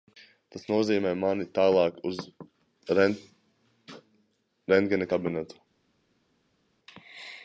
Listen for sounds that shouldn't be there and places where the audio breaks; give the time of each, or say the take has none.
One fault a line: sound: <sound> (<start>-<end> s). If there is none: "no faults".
no faults